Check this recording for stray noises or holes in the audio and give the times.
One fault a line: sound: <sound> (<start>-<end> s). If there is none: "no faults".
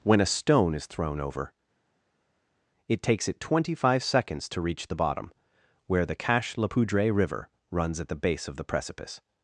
no faults